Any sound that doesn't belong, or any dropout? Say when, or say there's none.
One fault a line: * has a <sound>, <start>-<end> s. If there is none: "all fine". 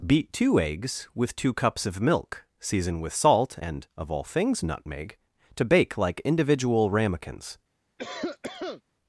* has a cough, 8.0-8.8 s